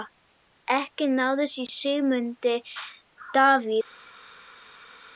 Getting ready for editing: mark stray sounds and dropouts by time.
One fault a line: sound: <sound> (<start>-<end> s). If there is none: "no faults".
no faults